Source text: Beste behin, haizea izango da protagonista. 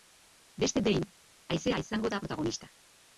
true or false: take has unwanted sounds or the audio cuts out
false